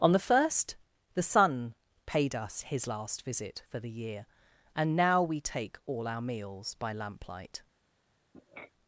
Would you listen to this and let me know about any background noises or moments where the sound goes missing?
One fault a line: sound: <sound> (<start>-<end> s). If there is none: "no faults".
sound: sniff (8.3-8.7 s)